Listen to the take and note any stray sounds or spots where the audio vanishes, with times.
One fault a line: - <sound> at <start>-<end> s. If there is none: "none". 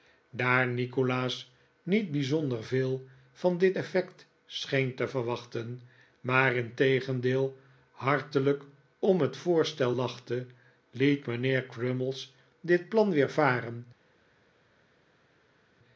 none